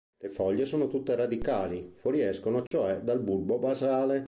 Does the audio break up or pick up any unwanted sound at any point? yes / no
yes